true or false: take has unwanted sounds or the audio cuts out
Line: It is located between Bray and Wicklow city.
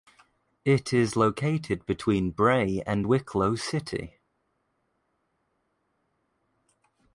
false